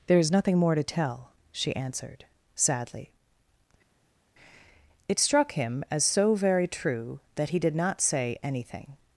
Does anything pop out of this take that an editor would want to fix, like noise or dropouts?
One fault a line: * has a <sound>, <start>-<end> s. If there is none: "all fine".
all fine